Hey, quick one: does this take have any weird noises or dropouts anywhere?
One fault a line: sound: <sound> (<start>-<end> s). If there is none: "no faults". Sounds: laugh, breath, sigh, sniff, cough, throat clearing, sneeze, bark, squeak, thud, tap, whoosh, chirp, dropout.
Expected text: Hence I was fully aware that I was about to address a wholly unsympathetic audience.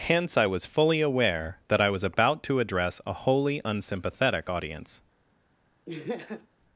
sound: laugh (5.9-6.5 s)